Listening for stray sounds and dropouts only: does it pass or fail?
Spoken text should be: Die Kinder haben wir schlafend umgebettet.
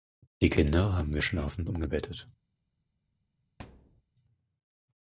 fail